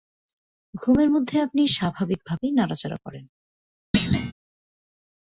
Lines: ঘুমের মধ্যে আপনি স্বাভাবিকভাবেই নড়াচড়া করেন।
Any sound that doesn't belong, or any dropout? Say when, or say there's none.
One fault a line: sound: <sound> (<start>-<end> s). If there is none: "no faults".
sound: thud (3.9-4.3 s)